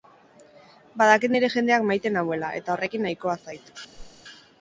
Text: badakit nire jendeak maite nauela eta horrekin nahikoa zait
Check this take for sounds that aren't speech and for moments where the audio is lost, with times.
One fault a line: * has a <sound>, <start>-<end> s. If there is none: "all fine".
* has a whoosh, 3.9-4.2 s